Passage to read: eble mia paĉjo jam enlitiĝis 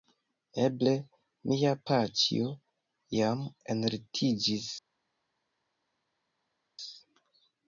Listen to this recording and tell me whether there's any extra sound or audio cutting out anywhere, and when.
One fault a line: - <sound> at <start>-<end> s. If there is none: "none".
none